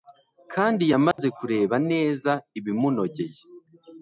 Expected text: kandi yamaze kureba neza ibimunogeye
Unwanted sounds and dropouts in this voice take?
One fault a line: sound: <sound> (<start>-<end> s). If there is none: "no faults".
sound: dropout (1.1-1.2 s)